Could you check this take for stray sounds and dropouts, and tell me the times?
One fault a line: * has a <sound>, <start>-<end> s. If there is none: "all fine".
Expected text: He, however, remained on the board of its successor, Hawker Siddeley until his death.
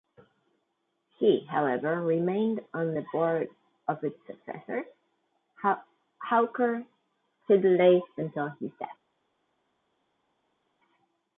all fine